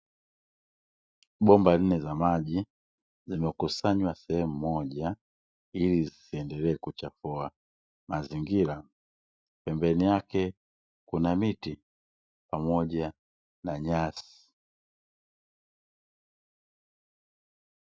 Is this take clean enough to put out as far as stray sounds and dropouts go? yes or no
yes